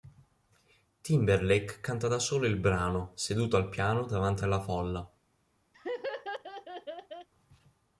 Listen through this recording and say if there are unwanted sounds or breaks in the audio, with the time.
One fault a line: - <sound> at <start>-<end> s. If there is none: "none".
- laugh at 5.7-7.3 s